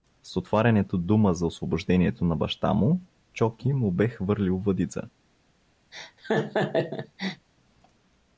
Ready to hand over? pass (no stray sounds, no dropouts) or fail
fail